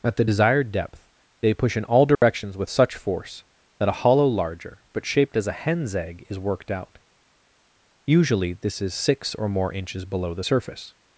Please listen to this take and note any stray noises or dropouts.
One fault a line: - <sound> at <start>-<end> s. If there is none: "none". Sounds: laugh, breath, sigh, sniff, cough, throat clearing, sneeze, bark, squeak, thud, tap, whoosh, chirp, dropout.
- dropout at 2.1-2.2 s